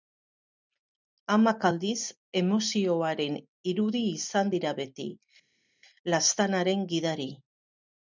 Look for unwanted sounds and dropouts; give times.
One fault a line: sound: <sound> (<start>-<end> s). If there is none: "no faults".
no faults